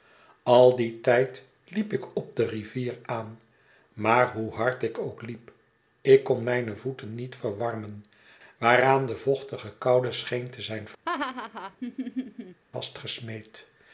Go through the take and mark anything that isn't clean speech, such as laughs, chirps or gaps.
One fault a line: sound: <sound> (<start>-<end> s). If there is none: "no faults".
sound: laugh (11.1-12.6 s)